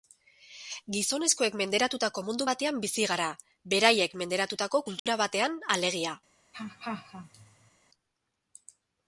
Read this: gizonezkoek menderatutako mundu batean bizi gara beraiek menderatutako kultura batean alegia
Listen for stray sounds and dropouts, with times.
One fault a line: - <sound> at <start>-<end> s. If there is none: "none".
- dropout at 5.0-5.1 s
- laugh at 6.5-7.7 s